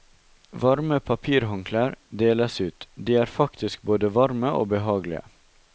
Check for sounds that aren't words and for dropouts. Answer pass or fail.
pass